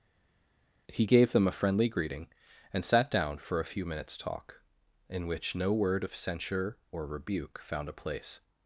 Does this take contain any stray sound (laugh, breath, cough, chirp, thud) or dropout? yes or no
no